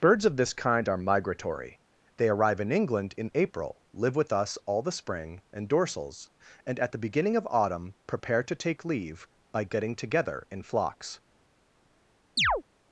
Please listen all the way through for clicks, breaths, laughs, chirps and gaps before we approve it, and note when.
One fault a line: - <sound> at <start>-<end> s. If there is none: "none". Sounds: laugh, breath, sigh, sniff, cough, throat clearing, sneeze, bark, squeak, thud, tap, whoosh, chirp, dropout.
- chirp at 12.4-12.6 s